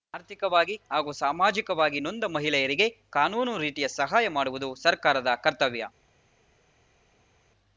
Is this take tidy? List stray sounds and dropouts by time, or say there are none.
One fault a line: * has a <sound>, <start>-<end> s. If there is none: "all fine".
all fine